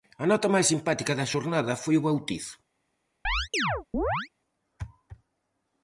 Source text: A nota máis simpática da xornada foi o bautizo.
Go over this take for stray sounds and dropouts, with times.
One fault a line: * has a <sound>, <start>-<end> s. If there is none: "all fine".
* has a chirp, 3.2-4.3 s